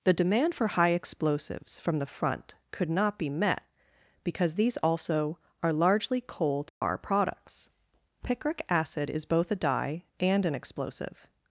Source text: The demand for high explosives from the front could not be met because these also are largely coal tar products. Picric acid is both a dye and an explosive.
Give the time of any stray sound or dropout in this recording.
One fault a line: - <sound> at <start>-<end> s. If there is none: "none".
- dropout at 6.7-6.8 s